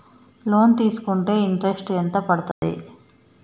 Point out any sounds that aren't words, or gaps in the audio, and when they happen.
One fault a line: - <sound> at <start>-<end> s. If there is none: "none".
- dropout at 2.5-2.6 s